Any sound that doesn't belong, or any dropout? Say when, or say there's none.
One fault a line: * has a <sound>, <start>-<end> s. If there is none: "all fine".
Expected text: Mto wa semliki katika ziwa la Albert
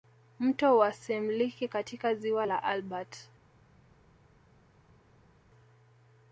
all fine